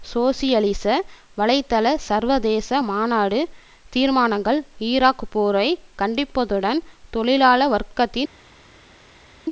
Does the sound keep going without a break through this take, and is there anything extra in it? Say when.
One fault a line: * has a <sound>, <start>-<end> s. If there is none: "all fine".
all fine